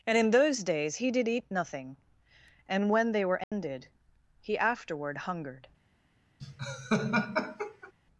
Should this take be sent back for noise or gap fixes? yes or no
yes